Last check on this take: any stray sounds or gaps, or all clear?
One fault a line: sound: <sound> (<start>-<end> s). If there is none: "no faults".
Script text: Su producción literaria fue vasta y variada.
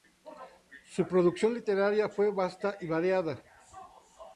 no faults